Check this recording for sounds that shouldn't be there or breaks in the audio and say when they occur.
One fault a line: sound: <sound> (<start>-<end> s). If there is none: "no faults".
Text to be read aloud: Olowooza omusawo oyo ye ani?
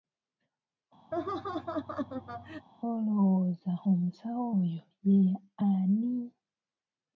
sound: laugh (1.1-2.7 s)